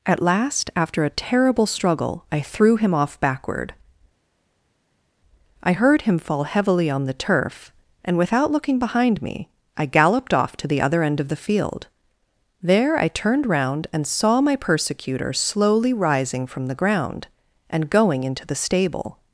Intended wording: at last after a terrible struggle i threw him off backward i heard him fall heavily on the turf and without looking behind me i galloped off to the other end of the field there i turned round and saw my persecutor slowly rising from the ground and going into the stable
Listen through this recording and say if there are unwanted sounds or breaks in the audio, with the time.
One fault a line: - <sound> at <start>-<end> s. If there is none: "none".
none